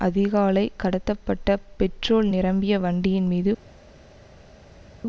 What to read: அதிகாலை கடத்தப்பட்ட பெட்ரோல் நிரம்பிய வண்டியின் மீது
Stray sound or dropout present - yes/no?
no